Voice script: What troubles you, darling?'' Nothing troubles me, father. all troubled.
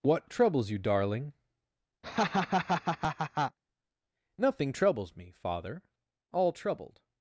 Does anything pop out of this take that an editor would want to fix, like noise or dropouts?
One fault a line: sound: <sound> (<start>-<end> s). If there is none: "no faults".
sound: laugh (2.0-3.6 s)